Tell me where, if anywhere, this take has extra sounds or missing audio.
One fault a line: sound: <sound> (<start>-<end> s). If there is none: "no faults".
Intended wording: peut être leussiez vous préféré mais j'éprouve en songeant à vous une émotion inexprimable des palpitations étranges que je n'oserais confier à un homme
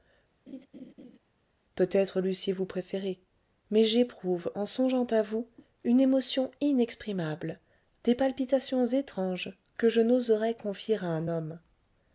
sound: laugh (0.5-1.2 s)